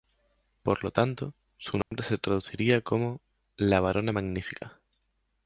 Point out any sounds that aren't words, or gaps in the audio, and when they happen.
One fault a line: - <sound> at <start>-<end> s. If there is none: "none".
- dropout at 1.8-1.9 s